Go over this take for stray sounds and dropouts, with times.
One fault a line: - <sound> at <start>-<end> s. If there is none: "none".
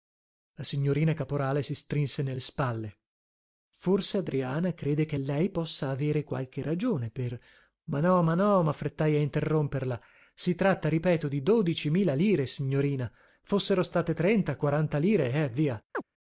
- chirp at 15.9-16.0 s